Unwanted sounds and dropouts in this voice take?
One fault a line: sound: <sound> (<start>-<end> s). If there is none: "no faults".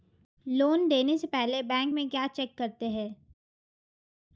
no faults